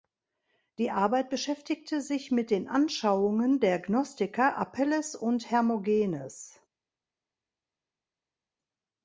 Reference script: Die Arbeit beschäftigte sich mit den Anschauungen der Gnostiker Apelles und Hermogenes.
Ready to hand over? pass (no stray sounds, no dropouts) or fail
pass